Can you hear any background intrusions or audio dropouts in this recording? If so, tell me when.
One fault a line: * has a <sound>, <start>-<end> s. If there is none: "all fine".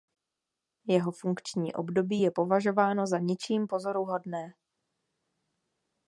all fine